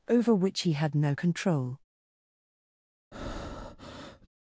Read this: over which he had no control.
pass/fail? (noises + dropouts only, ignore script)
fail